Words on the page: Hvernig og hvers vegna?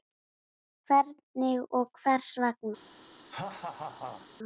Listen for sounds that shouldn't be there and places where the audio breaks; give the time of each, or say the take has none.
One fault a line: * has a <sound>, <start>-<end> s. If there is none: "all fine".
* has a laugh, 3.2-4.3 s